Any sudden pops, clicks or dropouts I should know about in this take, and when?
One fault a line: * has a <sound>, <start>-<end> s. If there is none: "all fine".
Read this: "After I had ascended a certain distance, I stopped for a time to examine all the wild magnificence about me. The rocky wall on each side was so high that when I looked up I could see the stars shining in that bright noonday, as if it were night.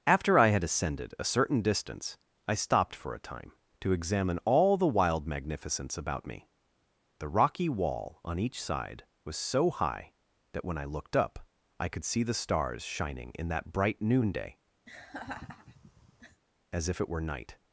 * has a laugh, 14.9-16.4 s